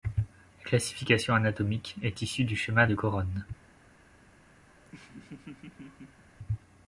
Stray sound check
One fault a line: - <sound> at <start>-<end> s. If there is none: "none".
- laugh at 4.7-6.2 s